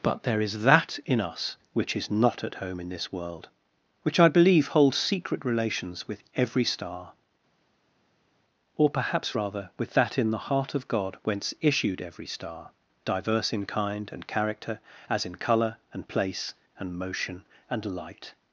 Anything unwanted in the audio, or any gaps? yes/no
no